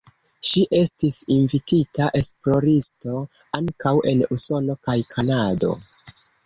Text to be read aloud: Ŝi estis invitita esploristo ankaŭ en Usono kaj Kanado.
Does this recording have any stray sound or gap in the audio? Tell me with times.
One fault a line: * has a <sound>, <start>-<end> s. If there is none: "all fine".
all fine